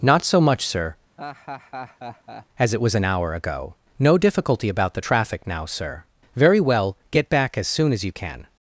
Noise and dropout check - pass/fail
fail